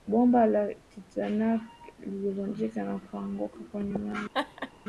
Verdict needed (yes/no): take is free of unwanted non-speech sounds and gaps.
no